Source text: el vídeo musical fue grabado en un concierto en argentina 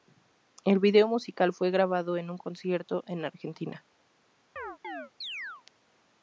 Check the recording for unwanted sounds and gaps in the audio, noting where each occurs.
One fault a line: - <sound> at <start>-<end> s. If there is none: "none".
- chirp at 4.6-5.6 s